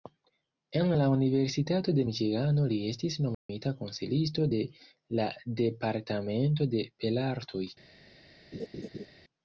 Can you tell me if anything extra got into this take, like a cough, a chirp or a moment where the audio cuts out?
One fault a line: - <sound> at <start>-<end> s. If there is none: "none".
- dropout at 3.3-3.5 s
- laugh at 8.5-9.1 s